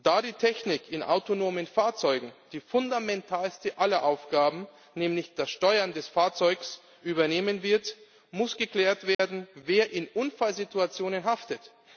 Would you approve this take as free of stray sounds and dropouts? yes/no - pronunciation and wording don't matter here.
no